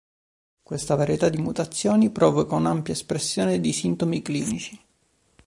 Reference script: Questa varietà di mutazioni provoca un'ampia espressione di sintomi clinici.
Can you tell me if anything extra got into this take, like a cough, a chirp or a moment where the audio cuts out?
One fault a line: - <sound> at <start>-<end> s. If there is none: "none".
none